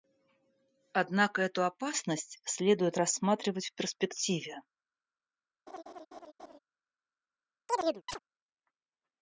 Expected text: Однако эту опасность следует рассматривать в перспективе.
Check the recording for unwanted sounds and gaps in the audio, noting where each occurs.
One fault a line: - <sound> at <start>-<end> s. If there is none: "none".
- laugh at 5.7-6.6 s
- chirp at 7.7-8.2 s